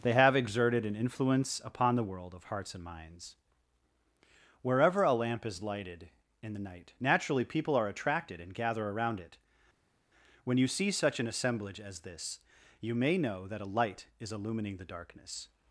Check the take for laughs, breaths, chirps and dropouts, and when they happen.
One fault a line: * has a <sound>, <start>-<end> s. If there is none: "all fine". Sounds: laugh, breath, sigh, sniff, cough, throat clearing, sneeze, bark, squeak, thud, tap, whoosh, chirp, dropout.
all fine